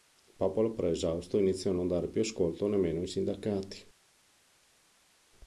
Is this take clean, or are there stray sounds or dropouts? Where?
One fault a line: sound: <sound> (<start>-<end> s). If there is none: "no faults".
no faults